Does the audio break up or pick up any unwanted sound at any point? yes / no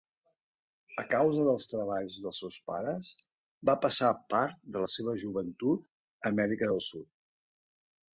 no